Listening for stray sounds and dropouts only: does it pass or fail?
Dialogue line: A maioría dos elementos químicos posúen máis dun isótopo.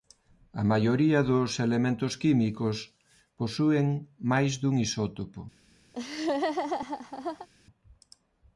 fail